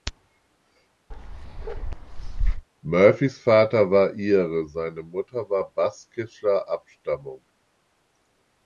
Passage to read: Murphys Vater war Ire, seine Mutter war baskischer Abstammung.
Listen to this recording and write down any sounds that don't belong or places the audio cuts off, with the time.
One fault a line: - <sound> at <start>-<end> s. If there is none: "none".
- bark at 1.1-2.7 s